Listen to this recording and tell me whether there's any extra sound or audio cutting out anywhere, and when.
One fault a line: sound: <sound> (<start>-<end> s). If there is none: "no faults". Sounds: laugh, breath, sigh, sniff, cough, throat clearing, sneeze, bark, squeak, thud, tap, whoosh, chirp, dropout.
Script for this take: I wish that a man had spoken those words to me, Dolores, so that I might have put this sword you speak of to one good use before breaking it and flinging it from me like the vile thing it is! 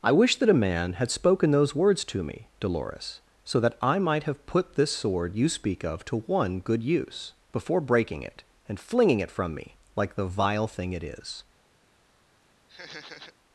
sound: laugh (12.7-13.3 s)